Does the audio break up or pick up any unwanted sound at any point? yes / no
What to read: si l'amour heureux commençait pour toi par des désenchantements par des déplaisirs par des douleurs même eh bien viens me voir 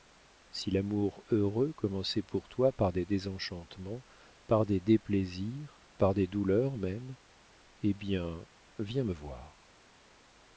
no